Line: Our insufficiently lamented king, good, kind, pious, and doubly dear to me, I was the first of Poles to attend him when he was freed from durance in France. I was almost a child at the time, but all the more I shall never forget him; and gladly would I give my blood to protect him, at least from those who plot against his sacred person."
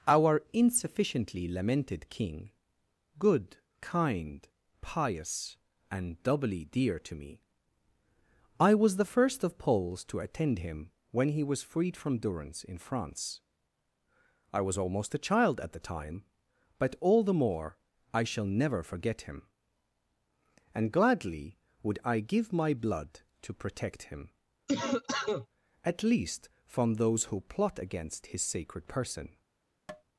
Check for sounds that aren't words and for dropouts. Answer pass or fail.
fail